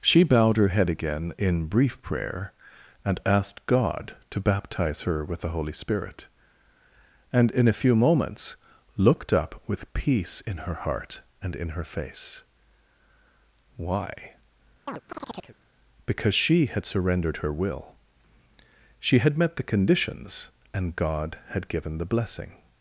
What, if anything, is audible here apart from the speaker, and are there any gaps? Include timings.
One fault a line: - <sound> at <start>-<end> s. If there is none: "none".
- chirp at 14.9-15.6 s